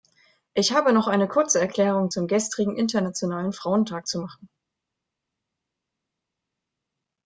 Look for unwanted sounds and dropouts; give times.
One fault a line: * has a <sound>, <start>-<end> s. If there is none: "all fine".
all fine